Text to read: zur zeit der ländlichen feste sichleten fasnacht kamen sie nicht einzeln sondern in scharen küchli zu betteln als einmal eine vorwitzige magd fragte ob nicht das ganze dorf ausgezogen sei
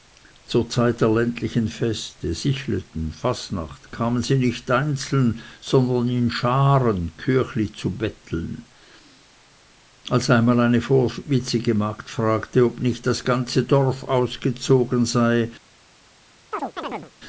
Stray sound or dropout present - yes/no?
yes